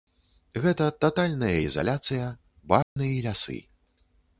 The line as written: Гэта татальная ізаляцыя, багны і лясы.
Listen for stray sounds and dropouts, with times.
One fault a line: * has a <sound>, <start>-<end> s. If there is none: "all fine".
* has a dropout, 2.8-3.0 s